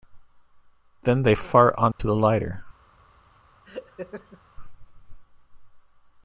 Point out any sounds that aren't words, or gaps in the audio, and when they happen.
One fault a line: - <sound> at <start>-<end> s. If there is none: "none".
- dropout at 1.9-2.0 s
- laugh at 3.6-4.4 s